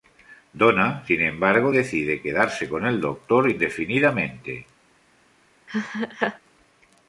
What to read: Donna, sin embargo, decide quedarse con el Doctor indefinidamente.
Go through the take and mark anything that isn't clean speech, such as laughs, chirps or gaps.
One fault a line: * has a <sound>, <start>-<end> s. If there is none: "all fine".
* has a laugh, 5.7-6.4 s